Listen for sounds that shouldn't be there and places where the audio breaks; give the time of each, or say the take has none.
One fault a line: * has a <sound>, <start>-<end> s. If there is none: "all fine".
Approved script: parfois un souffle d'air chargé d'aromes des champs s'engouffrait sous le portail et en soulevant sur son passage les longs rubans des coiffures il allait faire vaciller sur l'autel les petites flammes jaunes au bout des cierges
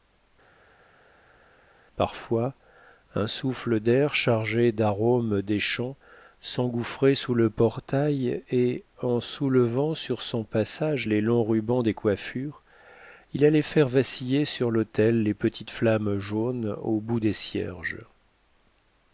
all fine